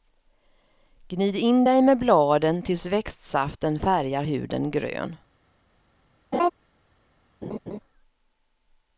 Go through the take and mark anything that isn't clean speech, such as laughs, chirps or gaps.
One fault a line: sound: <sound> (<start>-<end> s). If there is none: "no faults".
sound: laugh (6.3-6.5 s)
sound: laugh (7.4-7.8 s)